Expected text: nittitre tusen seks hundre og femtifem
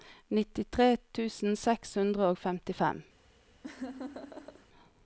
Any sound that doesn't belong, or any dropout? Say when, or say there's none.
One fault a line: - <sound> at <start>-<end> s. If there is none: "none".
- laugh at 3.6-4.7 s